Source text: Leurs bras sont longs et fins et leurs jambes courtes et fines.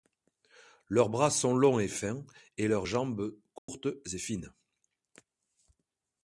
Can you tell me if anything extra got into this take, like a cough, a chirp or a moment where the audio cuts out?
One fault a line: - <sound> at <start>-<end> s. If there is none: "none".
- dropout at 3.6-3.7 s